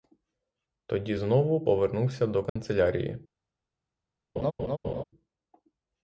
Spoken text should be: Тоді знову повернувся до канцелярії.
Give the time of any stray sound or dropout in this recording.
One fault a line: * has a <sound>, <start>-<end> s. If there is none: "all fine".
* has a dropout, 2.5-2.6 s
* has a laugh, 4.4-5.0 s